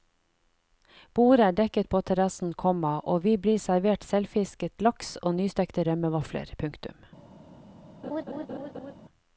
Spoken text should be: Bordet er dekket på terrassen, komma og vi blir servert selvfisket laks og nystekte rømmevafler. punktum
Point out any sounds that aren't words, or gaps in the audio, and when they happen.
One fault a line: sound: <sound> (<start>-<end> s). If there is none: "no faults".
sound: laugh (8.0-8.9 s)